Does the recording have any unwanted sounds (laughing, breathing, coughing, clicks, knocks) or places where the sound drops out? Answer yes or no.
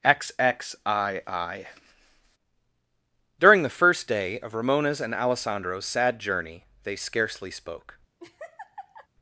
yes